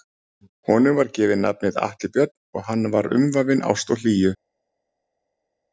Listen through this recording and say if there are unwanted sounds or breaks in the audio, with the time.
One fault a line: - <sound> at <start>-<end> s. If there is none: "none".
none